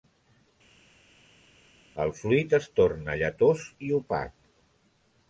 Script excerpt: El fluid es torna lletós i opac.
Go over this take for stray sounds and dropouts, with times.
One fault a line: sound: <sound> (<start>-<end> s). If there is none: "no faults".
no faults